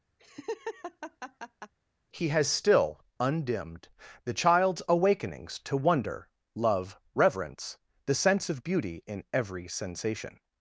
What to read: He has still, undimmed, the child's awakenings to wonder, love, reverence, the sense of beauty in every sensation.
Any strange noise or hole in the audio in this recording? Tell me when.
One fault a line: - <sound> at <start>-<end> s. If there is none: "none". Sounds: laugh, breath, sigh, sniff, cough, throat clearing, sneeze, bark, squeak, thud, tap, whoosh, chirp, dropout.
- laugh at 0.2-1.7 s